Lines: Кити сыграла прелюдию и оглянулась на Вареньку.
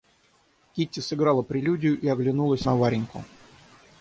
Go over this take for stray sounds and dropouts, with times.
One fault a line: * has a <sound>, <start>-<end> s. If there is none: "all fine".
all fine